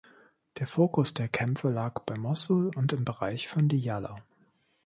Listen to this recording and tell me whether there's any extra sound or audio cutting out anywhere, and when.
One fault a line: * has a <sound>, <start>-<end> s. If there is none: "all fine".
all fine